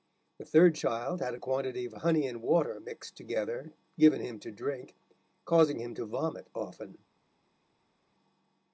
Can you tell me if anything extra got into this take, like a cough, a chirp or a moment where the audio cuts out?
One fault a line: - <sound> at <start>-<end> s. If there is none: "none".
none